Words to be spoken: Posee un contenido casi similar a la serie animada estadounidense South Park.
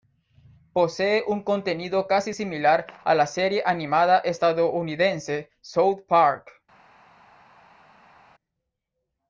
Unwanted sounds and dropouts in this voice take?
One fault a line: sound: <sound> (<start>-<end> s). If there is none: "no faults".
no faults